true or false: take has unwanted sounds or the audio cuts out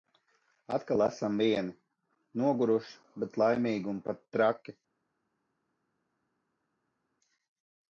false